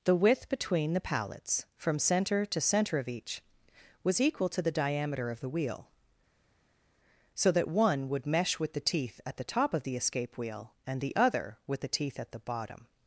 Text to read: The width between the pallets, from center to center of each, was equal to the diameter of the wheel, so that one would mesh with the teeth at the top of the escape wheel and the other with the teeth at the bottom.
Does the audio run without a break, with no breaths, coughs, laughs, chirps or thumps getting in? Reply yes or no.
yes